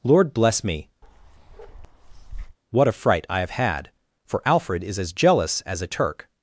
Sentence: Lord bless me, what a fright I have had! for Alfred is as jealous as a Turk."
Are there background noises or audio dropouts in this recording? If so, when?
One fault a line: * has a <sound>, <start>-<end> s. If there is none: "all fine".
* has a bark, 1.0-2.6 s